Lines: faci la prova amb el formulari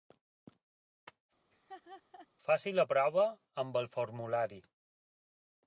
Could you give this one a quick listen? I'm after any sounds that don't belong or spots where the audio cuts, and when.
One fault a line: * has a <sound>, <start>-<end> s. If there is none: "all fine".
* has a laugh, 1.5-2.3 s